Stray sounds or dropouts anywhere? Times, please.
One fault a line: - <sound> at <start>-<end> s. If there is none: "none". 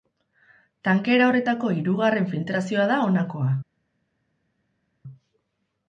none